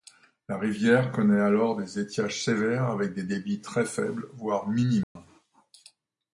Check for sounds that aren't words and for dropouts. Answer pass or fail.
fail